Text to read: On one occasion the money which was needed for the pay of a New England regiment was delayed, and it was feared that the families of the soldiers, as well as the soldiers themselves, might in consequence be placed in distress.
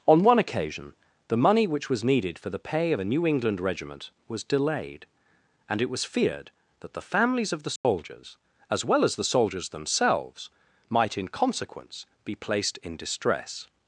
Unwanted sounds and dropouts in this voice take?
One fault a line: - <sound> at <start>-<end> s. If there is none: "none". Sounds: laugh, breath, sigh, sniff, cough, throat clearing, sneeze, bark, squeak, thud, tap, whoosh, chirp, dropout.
- dropout at 7.8-7.8 s